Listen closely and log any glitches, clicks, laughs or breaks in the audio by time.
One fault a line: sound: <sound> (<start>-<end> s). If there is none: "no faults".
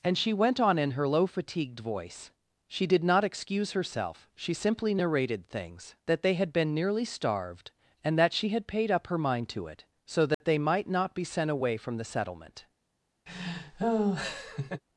sound: dropout (10.3-10.4 s)
sound: laugh (13.3-14.8 s)